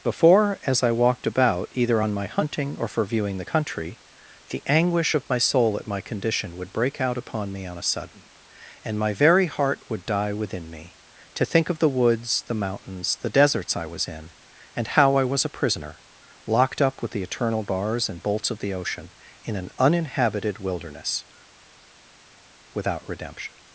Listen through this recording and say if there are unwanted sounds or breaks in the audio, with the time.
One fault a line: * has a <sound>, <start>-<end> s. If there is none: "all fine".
all fine